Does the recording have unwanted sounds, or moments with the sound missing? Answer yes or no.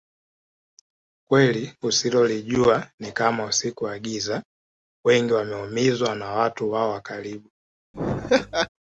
yes